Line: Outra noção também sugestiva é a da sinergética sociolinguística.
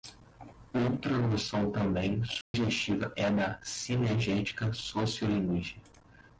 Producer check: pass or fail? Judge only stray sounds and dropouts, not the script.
fail